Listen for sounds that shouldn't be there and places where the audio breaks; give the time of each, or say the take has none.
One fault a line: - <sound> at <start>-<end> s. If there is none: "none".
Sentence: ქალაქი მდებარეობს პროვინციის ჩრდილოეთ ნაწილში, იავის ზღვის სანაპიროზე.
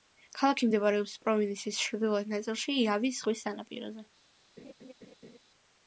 - laugh at 4.6-5.4 s